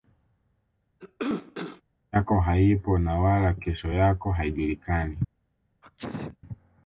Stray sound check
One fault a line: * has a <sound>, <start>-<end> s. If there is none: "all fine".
* has a cough, 1.0-1.8 s
* has a sneeze, 5.8-6.4 s